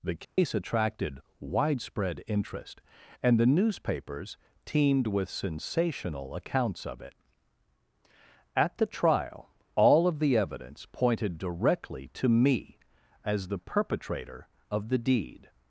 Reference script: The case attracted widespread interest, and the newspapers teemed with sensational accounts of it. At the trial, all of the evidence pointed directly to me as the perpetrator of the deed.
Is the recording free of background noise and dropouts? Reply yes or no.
no